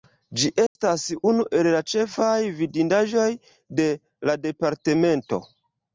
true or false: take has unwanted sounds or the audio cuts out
true